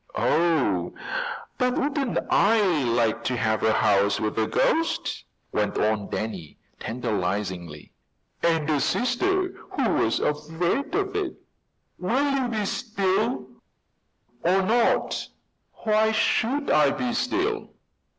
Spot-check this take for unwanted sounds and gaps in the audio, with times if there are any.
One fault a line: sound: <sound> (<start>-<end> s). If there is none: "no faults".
no faults